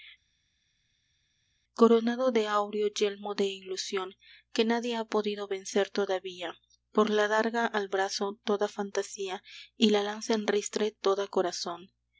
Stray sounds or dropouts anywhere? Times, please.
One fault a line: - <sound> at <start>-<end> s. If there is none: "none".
none